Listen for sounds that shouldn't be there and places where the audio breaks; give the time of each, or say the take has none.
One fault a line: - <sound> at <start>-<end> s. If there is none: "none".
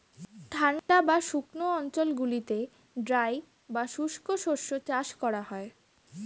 - dropout at 0.8-0.9 s